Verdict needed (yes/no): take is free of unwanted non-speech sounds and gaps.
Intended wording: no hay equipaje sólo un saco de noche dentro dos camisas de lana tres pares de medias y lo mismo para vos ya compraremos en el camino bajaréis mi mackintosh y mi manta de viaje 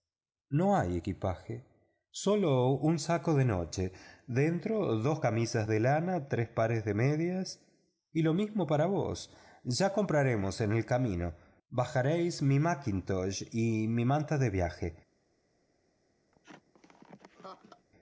no